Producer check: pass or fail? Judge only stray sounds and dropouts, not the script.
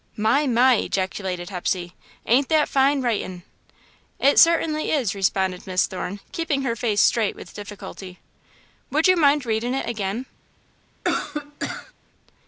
fail